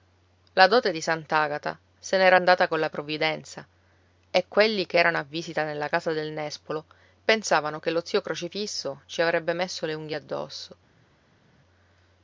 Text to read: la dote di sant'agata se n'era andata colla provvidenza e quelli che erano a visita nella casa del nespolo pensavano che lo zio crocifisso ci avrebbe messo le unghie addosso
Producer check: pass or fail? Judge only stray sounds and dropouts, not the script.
pass